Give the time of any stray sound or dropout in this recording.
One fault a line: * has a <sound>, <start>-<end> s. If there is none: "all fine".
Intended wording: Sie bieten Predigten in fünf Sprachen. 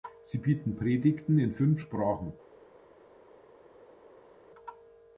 all fine